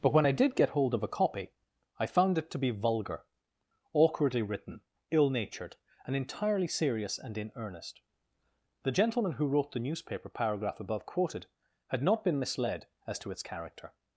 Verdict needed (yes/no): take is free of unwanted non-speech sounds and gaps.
yes